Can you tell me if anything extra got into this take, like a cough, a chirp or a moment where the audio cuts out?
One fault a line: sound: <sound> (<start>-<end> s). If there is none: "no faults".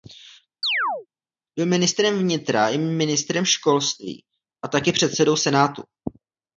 sound: chirp (0.6-1.1 s)